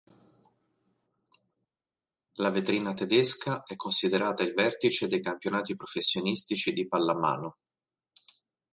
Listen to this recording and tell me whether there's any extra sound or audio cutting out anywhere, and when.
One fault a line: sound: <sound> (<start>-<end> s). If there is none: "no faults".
no faults